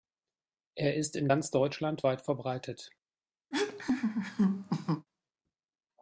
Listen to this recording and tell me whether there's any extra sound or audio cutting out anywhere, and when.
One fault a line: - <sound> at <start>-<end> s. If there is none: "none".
- laugh at 3.5-5.1 s